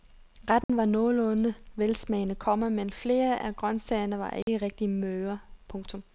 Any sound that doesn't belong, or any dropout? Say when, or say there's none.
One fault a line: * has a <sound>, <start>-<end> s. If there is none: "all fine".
* has a dropout, 0.6-0.7 s
* has a dropout, 4.4-4.5 s